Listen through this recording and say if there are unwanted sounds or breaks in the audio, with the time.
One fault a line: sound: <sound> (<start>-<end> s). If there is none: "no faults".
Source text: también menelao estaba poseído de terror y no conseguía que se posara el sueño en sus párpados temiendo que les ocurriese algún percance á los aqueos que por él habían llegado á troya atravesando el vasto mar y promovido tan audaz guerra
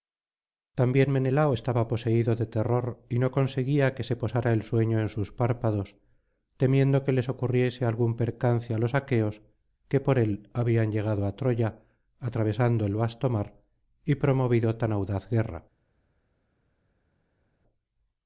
no faults